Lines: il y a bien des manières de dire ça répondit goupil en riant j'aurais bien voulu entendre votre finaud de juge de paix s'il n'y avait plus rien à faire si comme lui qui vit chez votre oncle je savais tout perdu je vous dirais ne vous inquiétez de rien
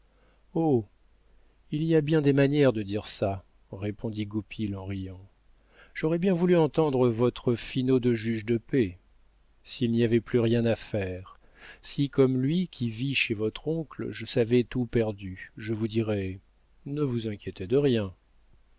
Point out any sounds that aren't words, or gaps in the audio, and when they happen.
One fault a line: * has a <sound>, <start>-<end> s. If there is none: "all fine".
all fine